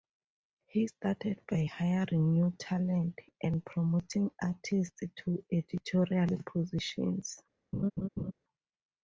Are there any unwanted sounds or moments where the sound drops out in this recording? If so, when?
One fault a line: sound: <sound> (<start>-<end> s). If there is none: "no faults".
sound: laugh (7.7-8.3 s)